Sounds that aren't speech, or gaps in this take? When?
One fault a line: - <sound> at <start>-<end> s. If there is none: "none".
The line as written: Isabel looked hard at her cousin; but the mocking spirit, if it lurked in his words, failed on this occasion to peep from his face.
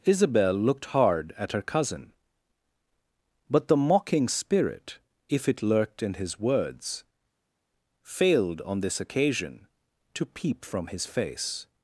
none